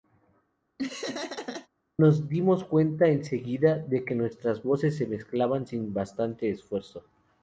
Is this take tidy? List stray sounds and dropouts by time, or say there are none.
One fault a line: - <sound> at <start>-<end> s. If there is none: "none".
- laugh at 0.8-1.7 s